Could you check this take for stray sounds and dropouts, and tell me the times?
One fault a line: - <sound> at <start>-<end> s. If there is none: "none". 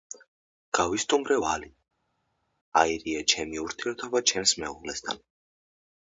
none